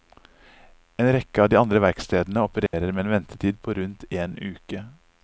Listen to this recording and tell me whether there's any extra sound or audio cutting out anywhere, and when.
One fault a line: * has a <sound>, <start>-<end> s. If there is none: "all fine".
* has a dropout, 2.7-2.7 s